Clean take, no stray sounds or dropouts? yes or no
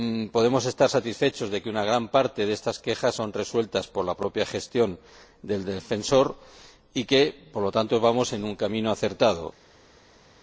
yes